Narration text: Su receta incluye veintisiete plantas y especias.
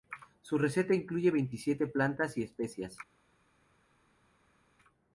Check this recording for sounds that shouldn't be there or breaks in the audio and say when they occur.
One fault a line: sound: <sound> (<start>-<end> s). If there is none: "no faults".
no faults